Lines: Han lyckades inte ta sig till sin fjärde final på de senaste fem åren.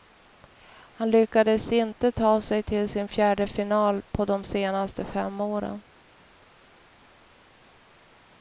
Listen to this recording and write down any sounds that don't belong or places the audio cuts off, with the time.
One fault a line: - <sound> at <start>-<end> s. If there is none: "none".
none